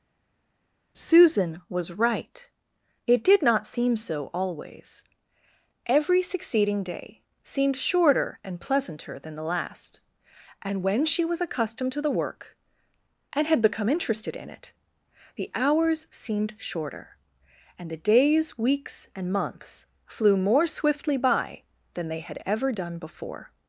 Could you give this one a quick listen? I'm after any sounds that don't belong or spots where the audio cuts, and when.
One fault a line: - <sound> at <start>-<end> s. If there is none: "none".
none